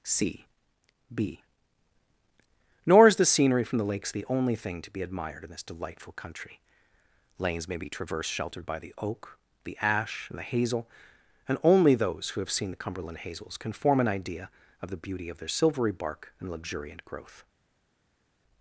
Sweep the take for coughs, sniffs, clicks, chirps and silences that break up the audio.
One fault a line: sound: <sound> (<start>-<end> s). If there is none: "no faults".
no faults